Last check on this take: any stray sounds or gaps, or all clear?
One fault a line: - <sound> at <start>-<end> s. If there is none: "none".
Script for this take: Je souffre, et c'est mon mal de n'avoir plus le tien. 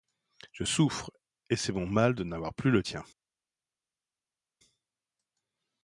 none